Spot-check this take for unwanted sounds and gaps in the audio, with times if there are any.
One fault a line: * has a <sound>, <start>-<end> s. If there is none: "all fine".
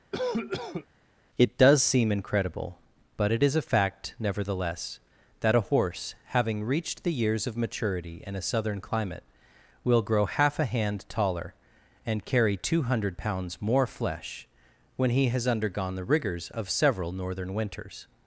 * has a cough, 0.1-0.9 s